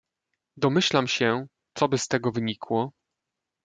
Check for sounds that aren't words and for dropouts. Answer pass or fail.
pass